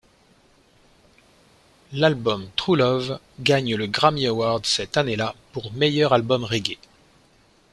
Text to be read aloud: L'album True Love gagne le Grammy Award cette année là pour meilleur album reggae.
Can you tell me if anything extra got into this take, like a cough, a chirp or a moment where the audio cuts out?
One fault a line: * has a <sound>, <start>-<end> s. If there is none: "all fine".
all fine